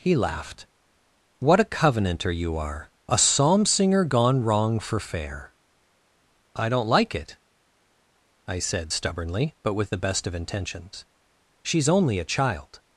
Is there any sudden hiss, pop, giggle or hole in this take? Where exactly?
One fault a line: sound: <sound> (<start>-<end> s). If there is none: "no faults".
no faults